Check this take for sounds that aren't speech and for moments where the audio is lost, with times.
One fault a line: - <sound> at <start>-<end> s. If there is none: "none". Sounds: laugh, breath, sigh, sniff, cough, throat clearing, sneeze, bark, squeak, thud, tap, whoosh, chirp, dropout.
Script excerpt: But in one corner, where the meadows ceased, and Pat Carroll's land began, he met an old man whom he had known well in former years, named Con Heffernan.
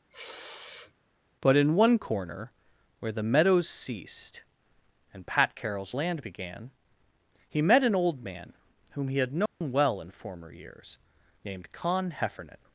- sniff at 0.1-0.9 s
- dropout at 9.5-9.6 s